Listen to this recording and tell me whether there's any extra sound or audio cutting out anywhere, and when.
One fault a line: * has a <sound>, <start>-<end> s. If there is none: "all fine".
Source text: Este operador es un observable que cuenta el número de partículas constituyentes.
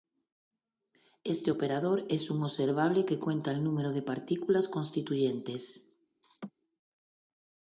* has a laugh, 6.2-6.5 s